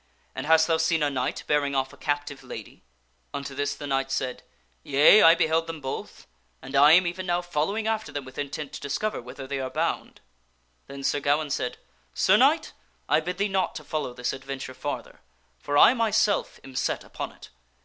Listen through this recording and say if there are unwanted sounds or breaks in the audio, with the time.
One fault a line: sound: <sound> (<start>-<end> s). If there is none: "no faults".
no faults